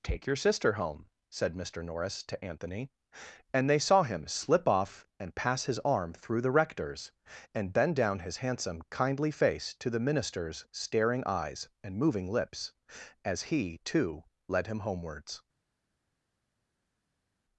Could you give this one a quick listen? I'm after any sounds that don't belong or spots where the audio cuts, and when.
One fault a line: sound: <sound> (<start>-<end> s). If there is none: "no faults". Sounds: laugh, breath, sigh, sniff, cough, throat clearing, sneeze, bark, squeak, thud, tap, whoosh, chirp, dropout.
no faults